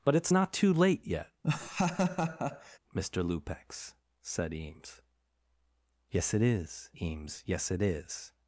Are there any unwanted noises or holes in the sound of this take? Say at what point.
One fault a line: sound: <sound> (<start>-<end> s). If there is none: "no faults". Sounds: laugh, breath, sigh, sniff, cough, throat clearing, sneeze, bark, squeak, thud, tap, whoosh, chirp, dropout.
sound: laugh (1.4-2.8 s)